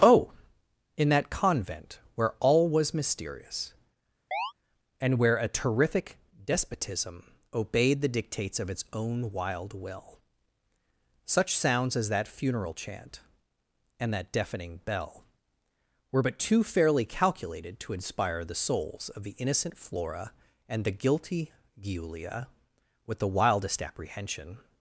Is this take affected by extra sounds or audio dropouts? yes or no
yes